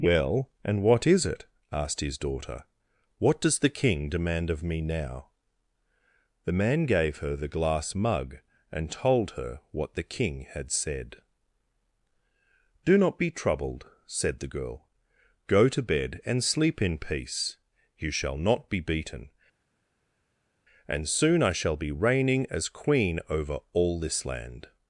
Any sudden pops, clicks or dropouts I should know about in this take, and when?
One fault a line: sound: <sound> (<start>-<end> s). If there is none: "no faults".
no faults